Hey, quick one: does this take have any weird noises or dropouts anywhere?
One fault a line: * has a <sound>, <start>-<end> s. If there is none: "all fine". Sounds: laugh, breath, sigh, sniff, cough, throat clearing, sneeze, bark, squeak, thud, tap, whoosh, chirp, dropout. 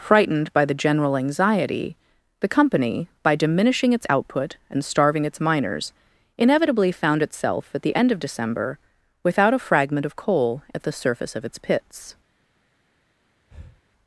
* has a breath, 13.5-13.8 s